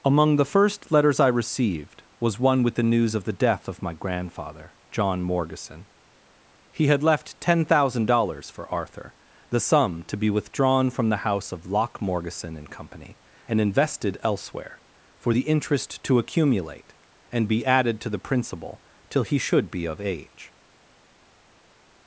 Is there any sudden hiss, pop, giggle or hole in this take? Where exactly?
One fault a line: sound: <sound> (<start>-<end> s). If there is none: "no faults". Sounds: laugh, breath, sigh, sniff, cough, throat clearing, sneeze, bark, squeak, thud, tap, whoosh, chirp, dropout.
no faults